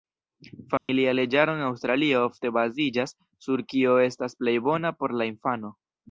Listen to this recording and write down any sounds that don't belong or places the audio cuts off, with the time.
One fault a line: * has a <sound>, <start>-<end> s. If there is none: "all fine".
* has a dropout, 0.8-0.9 s